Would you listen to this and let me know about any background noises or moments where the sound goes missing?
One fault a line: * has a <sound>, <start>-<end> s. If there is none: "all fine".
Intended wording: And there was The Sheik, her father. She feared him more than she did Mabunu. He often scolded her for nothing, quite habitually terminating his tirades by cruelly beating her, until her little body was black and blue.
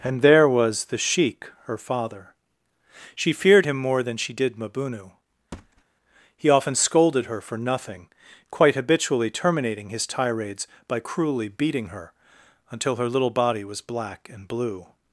* has a thud, 5.5-5.8 s